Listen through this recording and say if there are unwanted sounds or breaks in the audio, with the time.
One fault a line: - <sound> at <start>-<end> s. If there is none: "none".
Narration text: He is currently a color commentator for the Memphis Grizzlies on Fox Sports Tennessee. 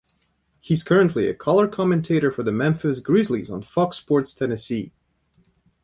none